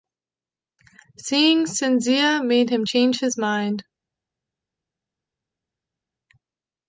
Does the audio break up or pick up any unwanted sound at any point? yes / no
no